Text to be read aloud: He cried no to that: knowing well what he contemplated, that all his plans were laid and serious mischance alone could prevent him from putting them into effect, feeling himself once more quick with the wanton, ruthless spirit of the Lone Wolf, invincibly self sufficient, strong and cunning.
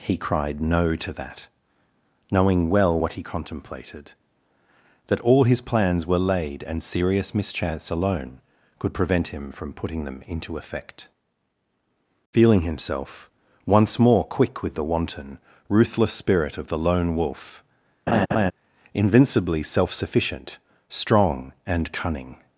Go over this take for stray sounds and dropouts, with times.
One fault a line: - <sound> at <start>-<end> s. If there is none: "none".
- laugh at 18.1-18.5 s